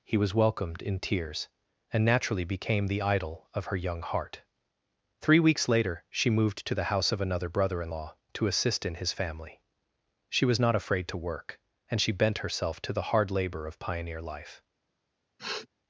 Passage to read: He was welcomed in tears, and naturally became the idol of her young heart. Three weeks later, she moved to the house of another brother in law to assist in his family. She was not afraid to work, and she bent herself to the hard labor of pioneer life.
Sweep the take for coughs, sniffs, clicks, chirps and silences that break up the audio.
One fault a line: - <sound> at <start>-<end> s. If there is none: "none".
- sniff at 15.4-15.7 s